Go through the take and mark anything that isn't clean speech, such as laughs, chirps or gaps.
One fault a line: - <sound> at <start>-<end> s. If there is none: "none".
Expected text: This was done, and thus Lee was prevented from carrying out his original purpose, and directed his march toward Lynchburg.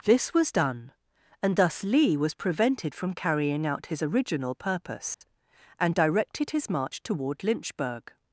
- dropout at 5.1-5.2 s